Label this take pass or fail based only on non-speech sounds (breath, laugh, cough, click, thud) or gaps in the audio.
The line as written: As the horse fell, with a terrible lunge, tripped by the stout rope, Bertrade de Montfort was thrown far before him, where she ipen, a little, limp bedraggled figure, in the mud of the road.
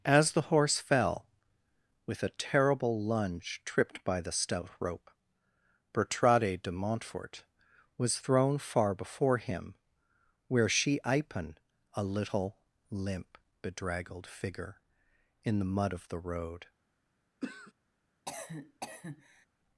fail